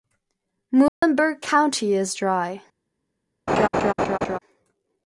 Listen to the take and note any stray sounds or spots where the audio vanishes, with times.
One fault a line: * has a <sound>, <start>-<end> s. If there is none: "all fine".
* has a dropout, 0.9-1.0 s
* has a laugh, 3.5-4.4 s